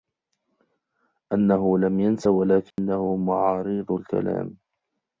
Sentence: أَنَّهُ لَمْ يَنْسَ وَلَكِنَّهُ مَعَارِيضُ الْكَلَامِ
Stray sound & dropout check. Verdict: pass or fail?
fail